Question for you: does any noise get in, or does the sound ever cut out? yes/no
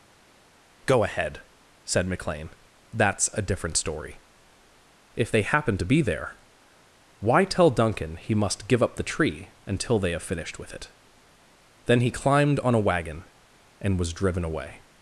no